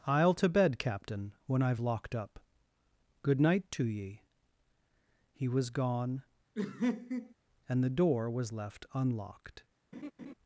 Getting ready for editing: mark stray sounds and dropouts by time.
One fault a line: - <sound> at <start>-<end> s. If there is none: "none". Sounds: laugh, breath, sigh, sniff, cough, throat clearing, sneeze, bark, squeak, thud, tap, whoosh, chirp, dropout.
- laugh at 6.5-7.3 s
- laugh at 9.9-10.3 s